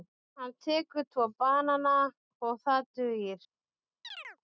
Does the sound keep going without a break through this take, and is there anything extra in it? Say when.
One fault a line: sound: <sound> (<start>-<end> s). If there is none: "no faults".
sound: chirp (4.0-4.4 s)